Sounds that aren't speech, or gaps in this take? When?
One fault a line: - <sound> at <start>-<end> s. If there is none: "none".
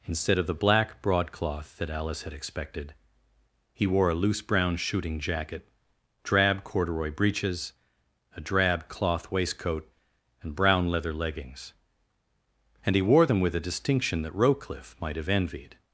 none